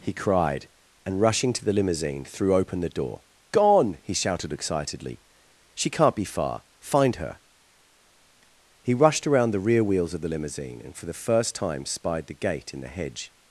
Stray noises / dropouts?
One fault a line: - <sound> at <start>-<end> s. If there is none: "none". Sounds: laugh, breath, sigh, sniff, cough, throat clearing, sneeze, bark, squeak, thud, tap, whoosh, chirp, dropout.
none